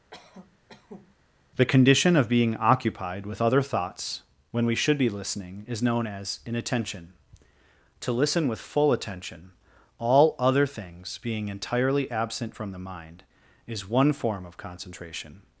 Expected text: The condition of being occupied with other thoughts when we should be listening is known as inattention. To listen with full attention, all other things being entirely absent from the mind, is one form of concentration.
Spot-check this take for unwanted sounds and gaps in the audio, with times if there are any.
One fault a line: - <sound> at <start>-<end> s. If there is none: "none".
- cough at 0.1-1.2 s